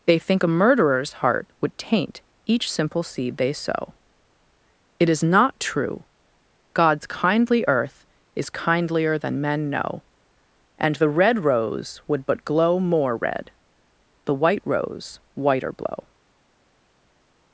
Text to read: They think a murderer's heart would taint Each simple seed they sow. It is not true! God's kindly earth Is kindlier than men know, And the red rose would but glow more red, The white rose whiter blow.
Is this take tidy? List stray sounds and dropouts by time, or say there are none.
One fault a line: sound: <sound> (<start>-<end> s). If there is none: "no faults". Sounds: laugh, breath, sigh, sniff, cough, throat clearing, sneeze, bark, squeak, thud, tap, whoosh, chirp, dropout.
no faults